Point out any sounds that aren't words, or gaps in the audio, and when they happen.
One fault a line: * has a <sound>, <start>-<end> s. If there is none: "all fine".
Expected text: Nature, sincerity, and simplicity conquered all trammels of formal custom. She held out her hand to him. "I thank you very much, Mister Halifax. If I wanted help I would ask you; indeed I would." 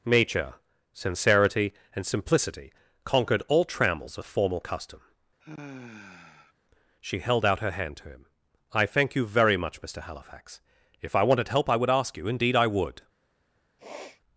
* has a sigh, 5.4-6.5 s
* has a sniff, 13.8-14.2 s